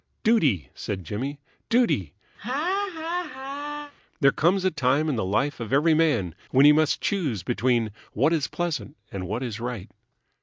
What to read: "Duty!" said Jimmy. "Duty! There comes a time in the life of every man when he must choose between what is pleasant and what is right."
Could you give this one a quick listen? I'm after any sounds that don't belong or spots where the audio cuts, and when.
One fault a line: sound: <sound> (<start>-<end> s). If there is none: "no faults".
sound: laugh (2.4-3.9 s)